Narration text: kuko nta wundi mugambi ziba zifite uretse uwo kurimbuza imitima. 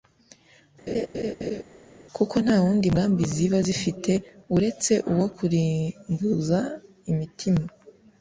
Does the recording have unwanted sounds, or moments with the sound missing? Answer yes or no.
yes